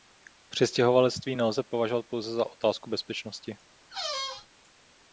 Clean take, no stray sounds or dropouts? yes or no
no